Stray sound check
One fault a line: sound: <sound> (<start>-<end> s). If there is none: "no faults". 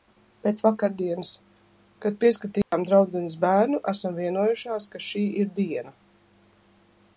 sound: dropout (2.6-2.7 s)